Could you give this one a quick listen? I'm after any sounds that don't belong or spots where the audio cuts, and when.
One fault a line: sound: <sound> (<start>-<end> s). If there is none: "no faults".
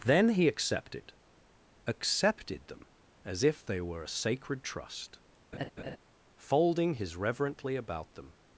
sound: laugh (5.5-6.0 s)